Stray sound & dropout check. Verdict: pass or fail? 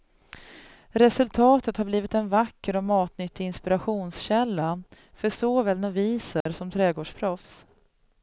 fail